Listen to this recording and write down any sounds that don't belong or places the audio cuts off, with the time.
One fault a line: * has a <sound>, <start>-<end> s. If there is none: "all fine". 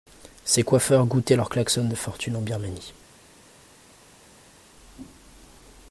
all fine